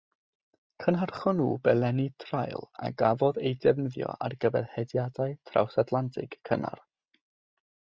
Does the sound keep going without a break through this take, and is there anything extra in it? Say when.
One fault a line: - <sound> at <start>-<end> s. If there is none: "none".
none